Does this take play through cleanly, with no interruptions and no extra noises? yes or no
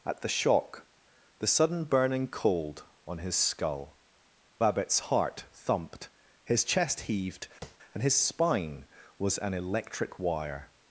no